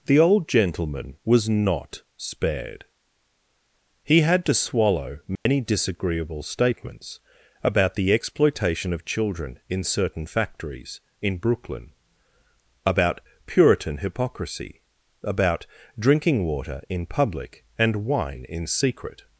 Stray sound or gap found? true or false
true